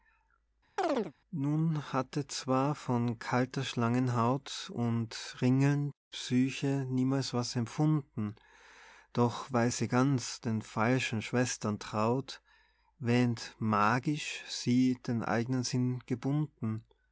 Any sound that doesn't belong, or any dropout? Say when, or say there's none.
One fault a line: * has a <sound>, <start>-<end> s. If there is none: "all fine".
* has a chirp, 0.8-1.1 s